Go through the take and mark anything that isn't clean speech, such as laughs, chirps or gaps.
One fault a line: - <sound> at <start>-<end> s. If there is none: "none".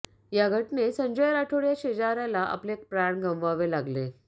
none